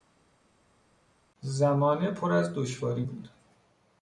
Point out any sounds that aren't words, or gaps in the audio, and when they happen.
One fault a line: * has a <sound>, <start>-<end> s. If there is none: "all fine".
all fine